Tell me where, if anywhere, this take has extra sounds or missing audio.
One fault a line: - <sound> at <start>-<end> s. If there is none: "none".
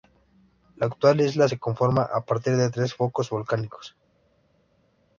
none